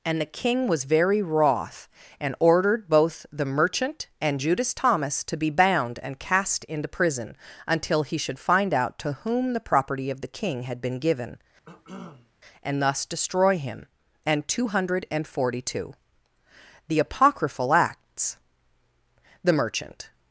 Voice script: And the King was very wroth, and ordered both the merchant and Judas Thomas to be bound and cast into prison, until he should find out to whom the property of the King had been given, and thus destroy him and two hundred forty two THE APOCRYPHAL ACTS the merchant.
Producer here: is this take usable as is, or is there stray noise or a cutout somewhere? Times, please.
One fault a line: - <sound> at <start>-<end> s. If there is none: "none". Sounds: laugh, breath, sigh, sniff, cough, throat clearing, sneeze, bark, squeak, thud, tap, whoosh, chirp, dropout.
- cough at 11.7-12.3 s